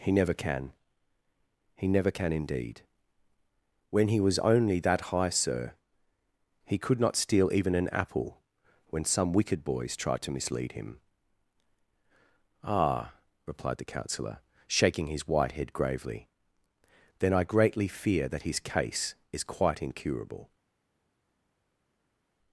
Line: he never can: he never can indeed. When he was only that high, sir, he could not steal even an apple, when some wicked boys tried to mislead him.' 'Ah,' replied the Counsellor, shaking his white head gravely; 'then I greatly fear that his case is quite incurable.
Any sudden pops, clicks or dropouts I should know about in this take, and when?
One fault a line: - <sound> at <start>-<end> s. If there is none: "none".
none